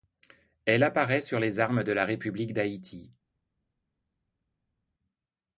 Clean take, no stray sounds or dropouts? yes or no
yes